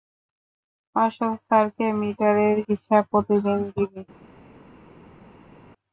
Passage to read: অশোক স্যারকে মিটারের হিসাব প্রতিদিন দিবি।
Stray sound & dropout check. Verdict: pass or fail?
pass